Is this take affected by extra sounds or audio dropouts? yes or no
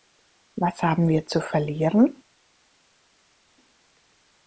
no